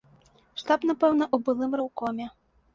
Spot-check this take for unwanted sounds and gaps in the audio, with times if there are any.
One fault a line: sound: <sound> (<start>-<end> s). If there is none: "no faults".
no faults